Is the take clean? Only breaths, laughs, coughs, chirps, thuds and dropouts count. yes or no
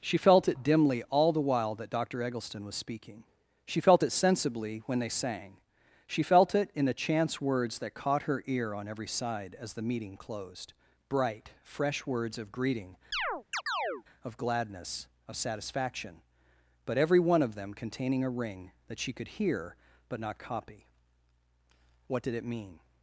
no